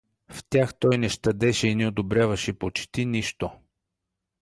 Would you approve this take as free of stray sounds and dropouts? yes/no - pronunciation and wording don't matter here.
yes